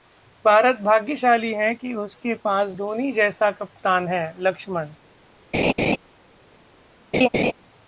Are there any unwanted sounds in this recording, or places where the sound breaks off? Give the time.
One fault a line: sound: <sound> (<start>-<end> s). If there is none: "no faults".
sound: laugh (5.5-6.0 s)
sound: laugh (7.1-7.5 s)